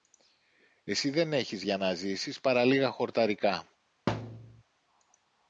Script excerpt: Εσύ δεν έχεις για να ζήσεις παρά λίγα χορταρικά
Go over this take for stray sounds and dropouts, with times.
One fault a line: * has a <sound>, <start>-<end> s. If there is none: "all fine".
* has a thud, 4.1-4.6 s